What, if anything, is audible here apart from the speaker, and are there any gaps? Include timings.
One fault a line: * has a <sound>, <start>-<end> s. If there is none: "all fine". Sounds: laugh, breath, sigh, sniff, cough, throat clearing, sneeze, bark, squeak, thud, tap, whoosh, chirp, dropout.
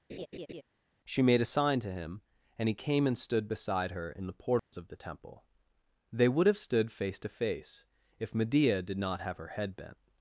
* has a laugh, 0.1-0.6 s
* has a dropout, 4.6-4.7 s